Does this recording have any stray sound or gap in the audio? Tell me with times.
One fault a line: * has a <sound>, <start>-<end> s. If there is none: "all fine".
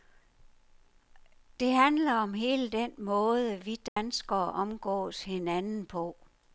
* has a dropout, 3.9-4.0 s